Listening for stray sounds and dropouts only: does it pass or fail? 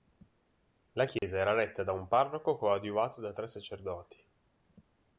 fail